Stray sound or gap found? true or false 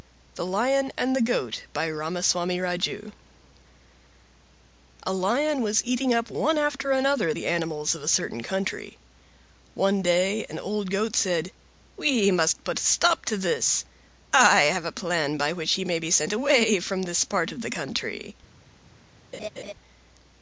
true